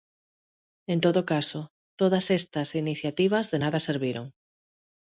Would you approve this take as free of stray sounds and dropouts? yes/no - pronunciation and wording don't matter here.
yes